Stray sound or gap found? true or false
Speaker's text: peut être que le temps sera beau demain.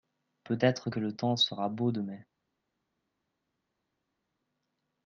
false